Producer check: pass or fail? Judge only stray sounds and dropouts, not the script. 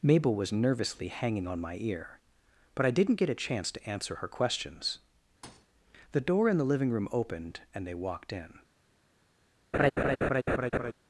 fail